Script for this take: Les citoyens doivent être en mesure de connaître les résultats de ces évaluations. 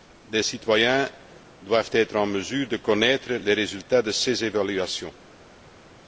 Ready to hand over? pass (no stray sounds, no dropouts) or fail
pass